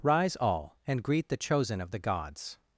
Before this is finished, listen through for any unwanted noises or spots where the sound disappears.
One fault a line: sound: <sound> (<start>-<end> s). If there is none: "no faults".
no faults